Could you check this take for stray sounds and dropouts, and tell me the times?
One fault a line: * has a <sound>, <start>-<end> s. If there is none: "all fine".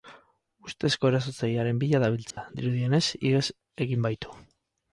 * has a dropout, 2.3-2.4 s